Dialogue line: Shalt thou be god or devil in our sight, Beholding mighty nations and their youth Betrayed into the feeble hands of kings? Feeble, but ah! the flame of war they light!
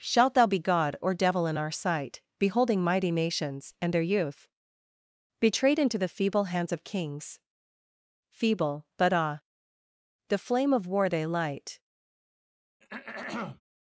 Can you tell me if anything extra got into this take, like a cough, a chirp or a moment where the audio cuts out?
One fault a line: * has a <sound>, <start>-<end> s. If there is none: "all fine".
* has a throat clearing, 12.8-13.6 s